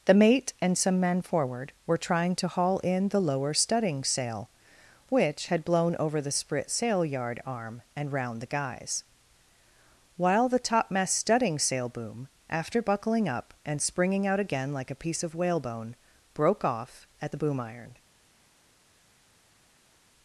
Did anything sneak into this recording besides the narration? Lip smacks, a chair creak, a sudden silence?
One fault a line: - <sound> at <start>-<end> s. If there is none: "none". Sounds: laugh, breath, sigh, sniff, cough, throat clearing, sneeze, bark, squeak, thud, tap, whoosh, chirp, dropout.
none